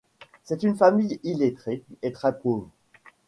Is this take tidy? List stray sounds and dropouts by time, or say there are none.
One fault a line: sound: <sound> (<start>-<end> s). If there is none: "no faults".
no faults